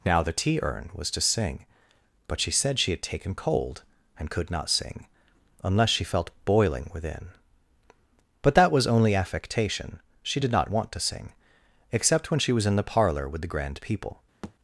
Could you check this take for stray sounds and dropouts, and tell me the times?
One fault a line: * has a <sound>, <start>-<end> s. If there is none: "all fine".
* has a thud, 14.4-14.5 s